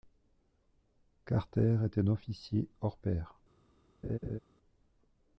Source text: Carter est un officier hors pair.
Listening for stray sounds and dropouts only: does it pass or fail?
fail